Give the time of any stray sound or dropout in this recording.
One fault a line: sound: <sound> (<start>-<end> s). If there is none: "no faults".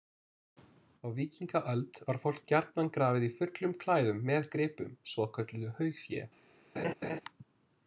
sound: laugh (6.8-7.2 s)